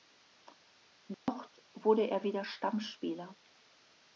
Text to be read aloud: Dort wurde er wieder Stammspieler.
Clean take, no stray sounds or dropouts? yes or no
no